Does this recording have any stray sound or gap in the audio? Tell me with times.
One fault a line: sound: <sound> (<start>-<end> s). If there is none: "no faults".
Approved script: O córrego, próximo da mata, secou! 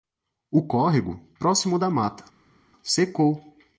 no faults